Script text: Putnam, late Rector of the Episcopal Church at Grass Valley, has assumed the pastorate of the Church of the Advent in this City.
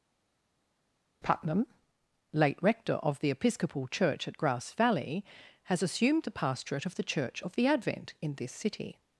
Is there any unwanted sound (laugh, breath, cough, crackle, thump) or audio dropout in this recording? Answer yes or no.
no